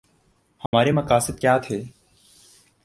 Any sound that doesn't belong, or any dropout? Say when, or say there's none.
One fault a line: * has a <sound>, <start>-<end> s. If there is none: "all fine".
* has a dropout, 0.7-0.7 s